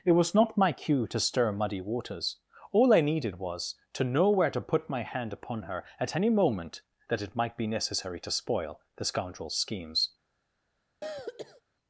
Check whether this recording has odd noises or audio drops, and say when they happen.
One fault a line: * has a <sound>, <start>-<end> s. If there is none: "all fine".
* has a throat clearing, 11.0-11.6 s